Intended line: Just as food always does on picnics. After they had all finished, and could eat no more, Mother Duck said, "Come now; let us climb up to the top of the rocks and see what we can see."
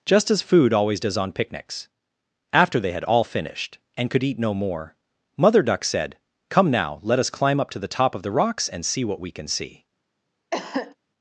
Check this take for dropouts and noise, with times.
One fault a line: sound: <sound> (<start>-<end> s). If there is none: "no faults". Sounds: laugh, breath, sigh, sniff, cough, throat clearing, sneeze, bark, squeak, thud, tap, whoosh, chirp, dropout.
sound: cough (10.5-11.0 s)